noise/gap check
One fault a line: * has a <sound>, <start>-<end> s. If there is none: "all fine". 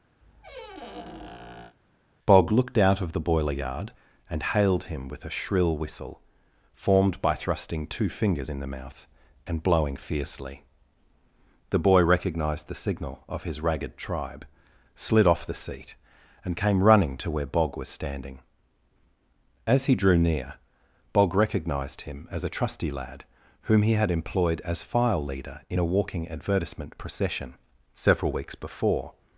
* has a squeak, 0.2-1.8 s